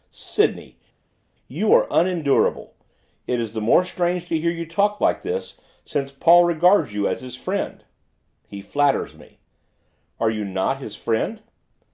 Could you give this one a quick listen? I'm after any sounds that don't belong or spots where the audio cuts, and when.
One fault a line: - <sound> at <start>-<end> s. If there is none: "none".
none